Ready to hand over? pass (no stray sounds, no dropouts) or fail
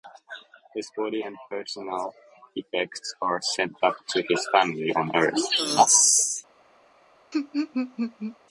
fail